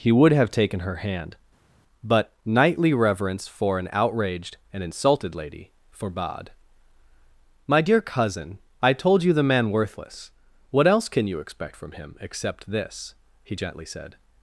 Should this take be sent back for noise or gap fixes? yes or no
no